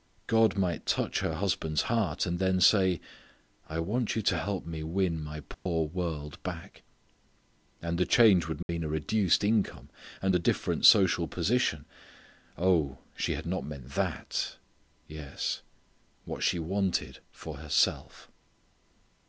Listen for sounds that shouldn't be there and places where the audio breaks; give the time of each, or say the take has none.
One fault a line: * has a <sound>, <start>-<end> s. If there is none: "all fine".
* has a dropout, 5.5-5.7 s
* has a dropout, 8.6-8.7 s